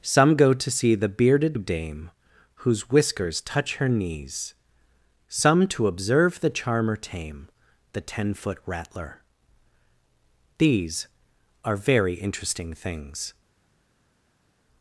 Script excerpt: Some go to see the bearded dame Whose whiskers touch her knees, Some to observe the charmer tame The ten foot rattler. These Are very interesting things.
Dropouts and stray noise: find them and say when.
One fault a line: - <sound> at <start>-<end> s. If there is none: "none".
none